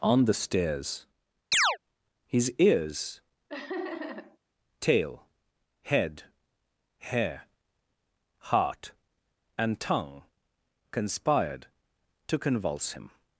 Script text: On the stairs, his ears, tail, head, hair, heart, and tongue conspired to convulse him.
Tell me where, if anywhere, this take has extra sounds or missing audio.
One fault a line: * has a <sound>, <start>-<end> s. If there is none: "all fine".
* has a chirp, 1.5-1.8 s
* has a laugh, 3.5-4.4 s